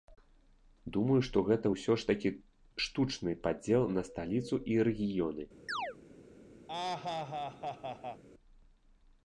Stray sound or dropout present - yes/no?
yes